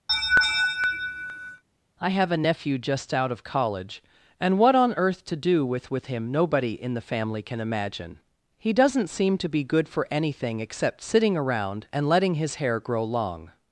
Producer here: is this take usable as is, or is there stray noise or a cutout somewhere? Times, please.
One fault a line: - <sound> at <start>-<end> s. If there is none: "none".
- laugh at 0.1-1.6 s